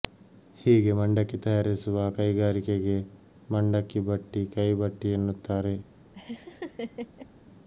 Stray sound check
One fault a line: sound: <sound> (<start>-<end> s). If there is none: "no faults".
sound: laugh (6.1-7.3 s)